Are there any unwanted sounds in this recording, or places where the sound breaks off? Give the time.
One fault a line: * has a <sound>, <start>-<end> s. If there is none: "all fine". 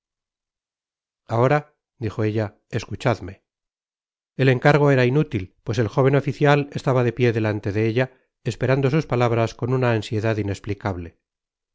all fine